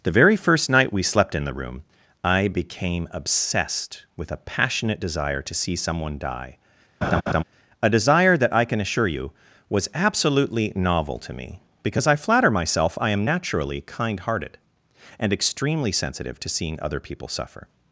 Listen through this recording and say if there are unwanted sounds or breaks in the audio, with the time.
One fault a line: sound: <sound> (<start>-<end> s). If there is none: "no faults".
sound: laugh (7.0-7.4 s)